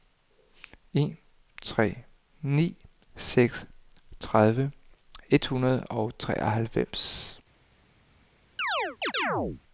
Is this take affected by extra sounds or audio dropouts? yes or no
yes